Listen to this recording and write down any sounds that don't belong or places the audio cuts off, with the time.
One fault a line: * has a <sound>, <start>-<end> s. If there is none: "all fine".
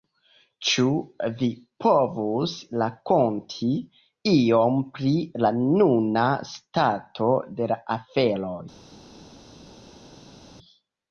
all fine